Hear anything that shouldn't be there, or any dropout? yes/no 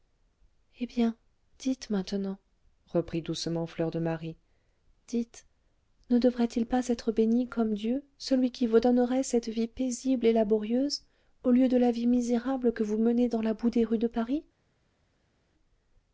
no